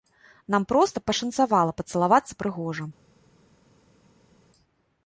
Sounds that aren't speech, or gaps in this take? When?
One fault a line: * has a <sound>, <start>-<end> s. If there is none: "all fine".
all fine